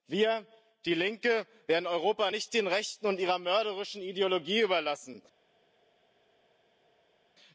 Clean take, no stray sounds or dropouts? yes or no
yes